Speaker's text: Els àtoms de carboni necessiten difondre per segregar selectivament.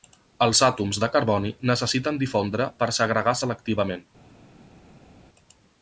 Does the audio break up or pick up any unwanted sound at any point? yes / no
no